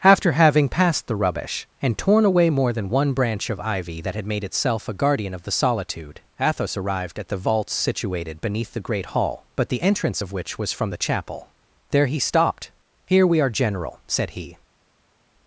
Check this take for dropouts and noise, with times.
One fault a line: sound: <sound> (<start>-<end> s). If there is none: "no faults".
no faults